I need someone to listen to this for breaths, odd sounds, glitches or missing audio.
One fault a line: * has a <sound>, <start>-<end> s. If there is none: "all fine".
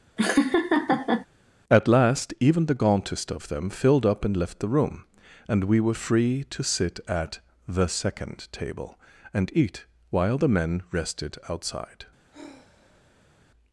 * has a laugh, 0.2-1.3 s
* has a sigh, 12.3-13.4 s